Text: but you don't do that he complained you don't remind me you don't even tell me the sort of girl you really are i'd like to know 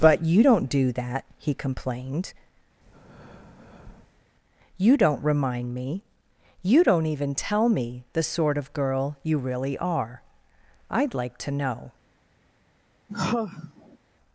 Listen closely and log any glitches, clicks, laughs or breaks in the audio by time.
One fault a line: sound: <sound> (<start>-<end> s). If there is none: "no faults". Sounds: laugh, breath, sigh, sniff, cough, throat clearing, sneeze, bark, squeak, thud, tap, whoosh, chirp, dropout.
sound: breath (2.8-4.2 s)
sound: sigh (13.1-14.0 s)